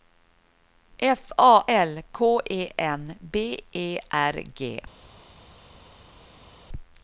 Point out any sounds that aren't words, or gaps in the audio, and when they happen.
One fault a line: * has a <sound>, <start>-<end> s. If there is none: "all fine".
all fine